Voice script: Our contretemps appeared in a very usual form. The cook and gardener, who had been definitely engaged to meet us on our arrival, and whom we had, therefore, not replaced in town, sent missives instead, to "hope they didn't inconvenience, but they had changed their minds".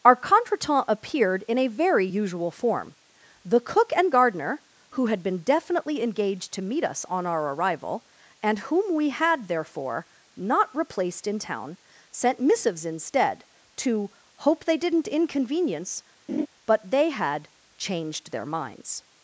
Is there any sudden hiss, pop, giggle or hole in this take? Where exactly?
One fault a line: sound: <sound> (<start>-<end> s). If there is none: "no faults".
sound: laugh (16.3-16.5 s)